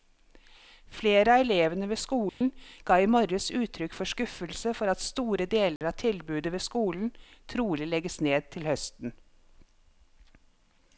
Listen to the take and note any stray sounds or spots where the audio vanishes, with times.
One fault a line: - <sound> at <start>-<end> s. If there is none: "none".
- dropout at 2.3-2.4 s
- dropout at 5.8-5.8 s